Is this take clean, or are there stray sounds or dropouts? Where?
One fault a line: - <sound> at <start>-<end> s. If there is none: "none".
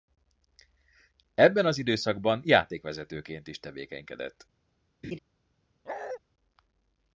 - laugh at 5.0-5.2 s
- bark at 5.8-6.2 s